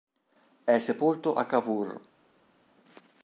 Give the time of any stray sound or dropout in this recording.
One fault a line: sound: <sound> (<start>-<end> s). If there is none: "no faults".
no faults